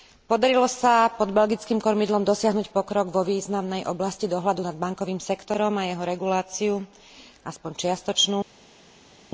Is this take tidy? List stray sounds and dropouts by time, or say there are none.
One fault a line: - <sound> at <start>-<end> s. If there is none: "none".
none